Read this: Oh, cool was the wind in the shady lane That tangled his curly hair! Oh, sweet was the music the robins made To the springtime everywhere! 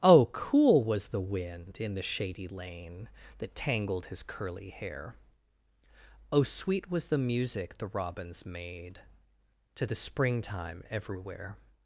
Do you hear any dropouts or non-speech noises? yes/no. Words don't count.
no